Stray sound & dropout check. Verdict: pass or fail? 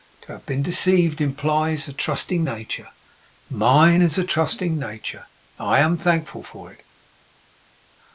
pass